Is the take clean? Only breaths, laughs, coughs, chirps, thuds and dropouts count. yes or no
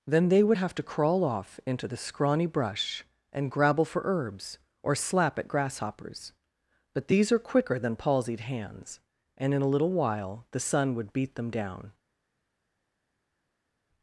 yes